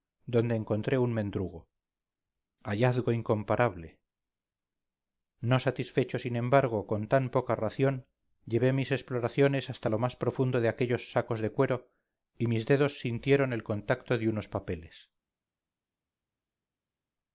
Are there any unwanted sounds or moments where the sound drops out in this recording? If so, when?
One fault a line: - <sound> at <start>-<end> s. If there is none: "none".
none